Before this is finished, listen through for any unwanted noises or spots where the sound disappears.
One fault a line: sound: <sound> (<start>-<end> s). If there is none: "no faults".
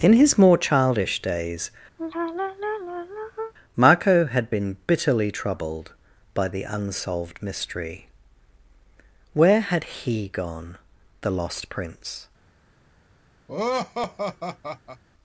sound: sigh (2.0-3.5 s)
sound: laugh (13.5-15.0 s)